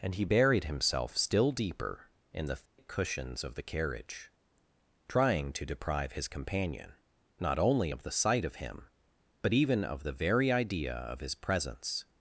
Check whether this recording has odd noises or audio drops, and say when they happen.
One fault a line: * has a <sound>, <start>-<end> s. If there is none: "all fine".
* has a dropout, 2.7-2.8 s